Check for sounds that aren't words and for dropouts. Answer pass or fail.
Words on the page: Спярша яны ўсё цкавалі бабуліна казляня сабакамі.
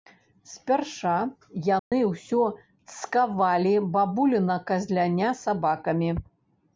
fail